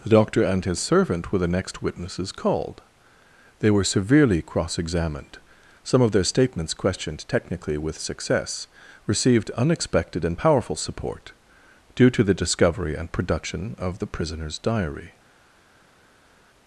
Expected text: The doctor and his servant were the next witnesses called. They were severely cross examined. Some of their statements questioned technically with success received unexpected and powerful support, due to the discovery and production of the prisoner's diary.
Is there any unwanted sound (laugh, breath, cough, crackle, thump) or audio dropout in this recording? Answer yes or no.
no